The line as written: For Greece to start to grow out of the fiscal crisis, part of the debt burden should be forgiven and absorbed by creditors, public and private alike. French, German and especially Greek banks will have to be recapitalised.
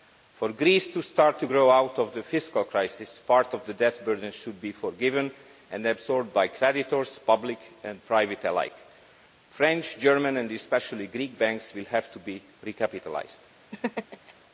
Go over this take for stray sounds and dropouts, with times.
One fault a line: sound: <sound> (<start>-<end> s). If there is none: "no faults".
sound: laugh (13.7-14.3 s)